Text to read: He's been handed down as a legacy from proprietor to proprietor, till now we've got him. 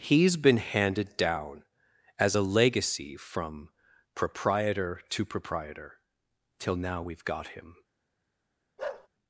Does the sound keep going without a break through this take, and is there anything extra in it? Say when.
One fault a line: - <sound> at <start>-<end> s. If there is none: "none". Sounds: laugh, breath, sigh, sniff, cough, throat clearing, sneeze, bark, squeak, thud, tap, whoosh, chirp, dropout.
- bark at 8.8-9.1 s